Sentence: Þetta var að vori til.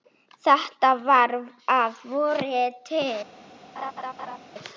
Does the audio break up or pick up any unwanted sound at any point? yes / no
yes